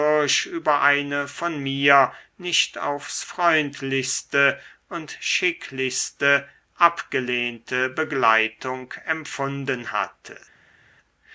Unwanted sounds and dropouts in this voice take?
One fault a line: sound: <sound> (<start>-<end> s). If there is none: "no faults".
no faults